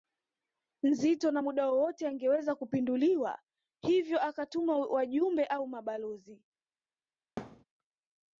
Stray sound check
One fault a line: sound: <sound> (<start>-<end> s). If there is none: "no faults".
sound: thud (7.4-7.6 s)